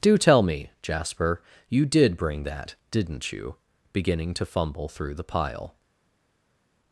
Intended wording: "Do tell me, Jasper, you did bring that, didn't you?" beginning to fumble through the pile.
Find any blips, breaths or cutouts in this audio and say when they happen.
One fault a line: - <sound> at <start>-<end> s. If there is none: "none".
none